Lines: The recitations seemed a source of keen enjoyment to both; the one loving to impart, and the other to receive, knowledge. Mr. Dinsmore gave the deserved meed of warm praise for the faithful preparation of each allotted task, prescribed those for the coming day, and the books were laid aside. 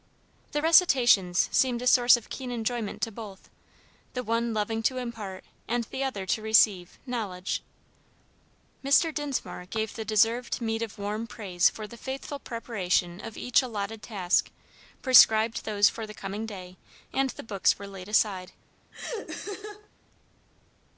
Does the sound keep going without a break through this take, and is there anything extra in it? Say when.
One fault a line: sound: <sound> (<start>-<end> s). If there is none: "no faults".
sound: laugh (18.9-19.9 s)